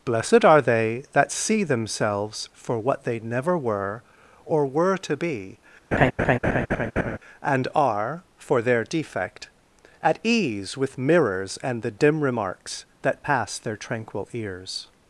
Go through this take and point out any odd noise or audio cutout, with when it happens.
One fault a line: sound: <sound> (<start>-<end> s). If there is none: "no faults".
sound: laugh (5.9-7.2 s)